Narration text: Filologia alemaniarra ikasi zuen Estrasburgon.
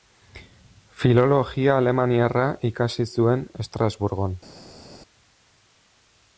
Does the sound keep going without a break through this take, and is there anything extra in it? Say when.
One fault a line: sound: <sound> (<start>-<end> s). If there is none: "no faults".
no faults